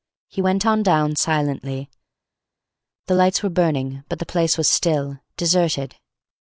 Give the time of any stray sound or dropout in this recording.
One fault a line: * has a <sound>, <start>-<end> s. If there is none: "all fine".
all fine